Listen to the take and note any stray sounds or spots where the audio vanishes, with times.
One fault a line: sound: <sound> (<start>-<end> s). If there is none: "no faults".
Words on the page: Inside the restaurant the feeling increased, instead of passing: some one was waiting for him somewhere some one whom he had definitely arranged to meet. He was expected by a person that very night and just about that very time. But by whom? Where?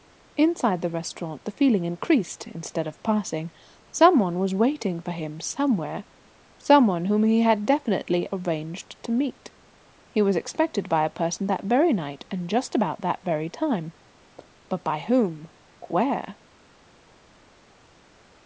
no faults